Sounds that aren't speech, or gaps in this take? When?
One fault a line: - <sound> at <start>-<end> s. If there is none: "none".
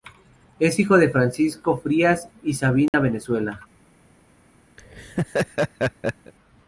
- dropout at 2.9-2.9 s
- laugh at 4.8-6.3 s